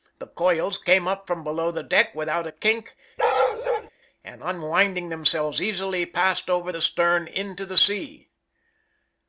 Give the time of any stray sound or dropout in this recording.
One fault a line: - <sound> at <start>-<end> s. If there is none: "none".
- bark at 3.2-3.9 s